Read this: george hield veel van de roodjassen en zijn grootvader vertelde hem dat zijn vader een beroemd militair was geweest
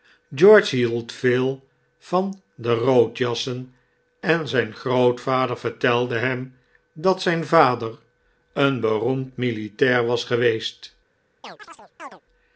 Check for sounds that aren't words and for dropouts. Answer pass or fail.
fail